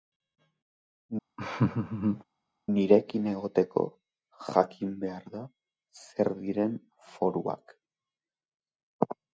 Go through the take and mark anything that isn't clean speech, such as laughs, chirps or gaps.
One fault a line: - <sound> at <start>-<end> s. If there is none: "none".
- laugh at 1.4-2.2 s